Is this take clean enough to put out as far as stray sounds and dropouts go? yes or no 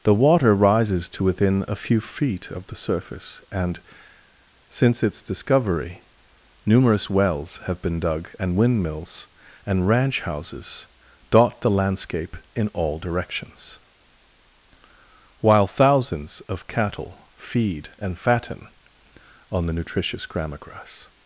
yes